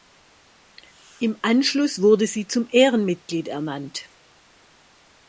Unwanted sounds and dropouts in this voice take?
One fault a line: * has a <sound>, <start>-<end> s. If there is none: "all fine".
all fine